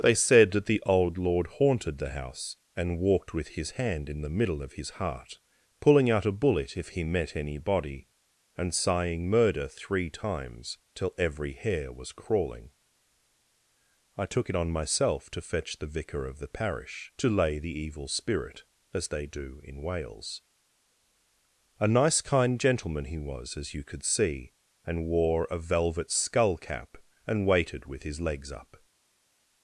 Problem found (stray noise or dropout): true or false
false